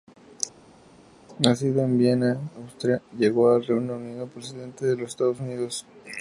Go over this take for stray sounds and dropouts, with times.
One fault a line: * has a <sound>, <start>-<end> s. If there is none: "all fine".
all fine